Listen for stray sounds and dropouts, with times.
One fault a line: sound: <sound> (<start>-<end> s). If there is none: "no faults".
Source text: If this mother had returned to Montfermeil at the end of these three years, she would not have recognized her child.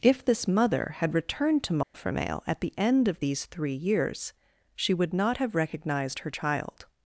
sound: dropout (1.8-1.9 s)